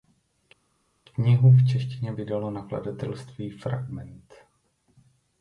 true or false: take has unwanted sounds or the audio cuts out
false